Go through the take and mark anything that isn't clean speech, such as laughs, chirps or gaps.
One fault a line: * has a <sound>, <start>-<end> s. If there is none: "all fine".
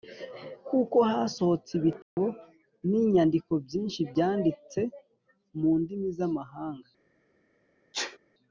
* has a dropout, 2.0-2.2 s
* has a sneeze, 7.9-8.2 s